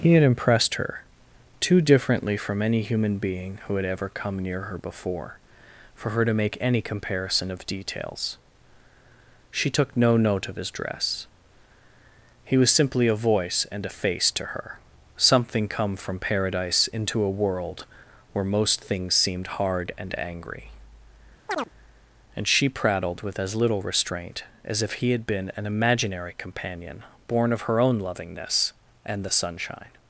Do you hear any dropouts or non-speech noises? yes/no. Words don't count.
yes